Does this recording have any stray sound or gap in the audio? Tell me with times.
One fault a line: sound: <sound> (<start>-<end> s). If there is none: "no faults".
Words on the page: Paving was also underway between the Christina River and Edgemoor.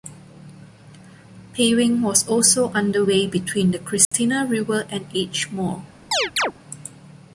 sound: dropout (4.0-4.1 s)
sound: chirp (6.1-6.5 s)